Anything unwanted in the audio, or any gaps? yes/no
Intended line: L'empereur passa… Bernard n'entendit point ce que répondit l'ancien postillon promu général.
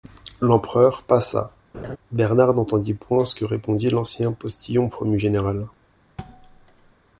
yes